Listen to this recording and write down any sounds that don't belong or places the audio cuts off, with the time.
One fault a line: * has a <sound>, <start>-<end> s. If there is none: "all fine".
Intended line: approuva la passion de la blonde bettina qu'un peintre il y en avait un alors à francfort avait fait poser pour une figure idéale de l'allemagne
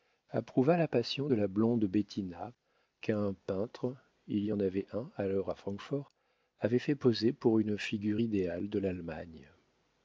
all fine